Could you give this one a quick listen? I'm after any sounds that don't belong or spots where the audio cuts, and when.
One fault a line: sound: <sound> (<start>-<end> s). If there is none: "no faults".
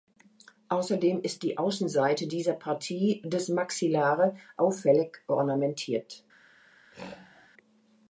sound: throat clearing (6.9-7.5 s)